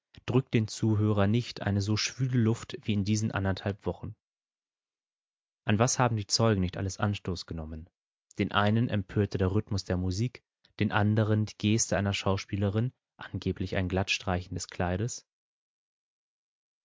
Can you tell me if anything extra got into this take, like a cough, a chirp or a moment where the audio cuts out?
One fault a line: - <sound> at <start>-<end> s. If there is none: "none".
none